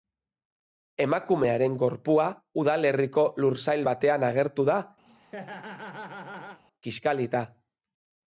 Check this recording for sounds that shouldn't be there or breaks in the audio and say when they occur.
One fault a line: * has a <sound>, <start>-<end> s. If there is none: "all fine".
* has a laugh, 5.1-6.6 s